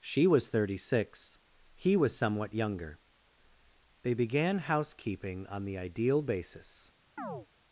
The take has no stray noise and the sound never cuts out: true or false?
false